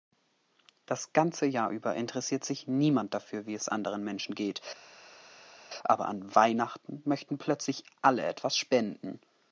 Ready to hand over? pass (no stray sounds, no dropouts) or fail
pass